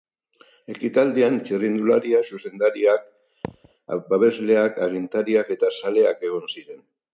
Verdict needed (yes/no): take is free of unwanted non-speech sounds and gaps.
no